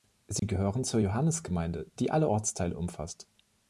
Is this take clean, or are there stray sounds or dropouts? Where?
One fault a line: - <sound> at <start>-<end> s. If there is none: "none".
- dropout at 0.4-0.4 s